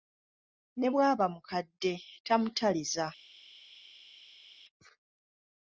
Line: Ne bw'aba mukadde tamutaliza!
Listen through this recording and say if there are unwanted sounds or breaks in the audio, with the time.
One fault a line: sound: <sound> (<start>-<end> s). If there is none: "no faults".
no faults